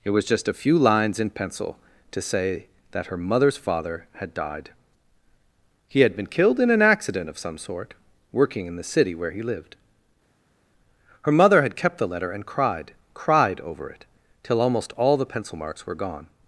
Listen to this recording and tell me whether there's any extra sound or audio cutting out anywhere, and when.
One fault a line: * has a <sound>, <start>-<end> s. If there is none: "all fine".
all fine